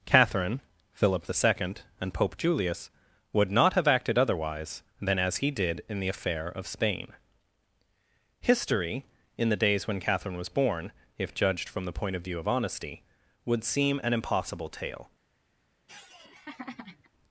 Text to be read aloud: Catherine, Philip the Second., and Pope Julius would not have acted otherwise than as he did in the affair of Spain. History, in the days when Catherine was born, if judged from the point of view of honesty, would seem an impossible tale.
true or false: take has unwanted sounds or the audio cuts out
true